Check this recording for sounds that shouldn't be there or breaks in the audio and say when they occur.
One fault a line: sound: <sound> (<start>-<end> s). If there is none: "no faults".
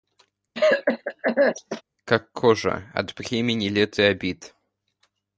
sound: cough (0.5-1.8 s)